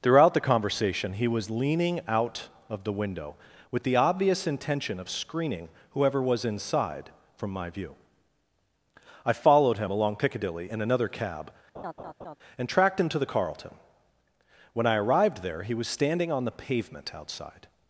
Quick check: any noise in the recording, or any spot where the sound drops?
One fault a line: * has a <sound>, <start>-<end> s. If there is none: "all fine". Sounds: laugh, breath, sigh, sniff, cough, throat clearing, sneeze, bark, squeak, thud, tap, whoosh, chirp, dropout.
* has a laugh, 11.7-12.4 s